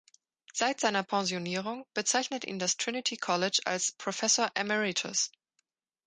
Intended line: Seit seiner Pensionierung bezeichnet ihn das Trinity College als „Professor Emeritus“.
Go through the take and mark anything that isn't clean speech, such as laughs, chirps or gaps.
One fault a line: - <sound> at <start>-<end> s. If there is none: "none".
none